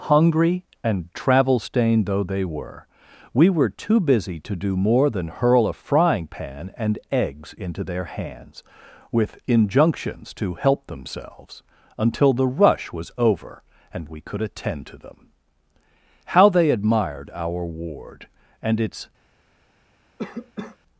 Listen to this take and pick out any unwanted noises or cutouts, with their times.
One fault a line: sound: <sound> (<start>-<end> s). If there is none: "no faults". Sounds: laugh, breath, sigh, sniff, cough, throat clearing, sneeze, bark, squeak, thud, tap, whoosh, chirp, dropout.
sound: cough (20.2-20.8 s)